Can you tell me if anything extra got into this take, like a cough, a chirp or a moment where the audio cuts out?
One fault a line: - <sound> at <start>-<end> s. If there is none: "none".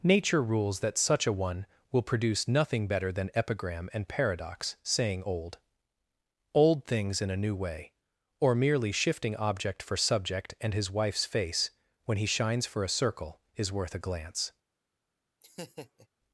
- laugh at 15.4-16.1 s